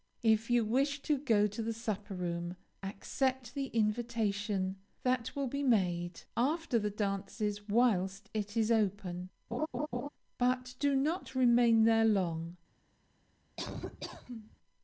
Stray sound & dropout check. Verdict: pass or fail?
fail